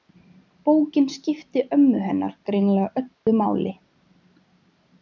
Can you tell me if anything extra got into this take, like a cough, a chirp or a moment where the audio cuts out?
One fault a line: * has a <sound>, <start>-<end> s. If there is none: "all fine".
* has a dropout, 3.1-3.3 s